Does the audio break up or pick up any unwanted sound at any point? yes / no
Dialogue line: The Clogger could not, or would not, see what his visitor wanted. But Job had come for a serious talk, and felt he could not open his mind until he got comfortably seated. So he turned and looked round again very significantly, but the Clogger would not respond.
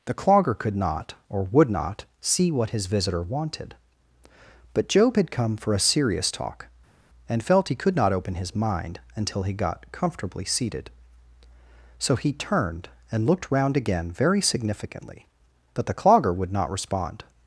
no